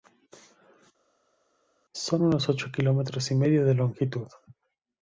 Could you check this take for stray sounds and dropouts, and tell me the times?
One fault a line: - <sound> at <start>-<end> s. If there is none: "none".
none